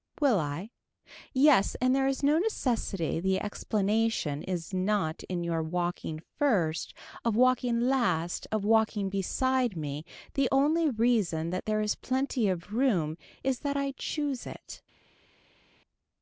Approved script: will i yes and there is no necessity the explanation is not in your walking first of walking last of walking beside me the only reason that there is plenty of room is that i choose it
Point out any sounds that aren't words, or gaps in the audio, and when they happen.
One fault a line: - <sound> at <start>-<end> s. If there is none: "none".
none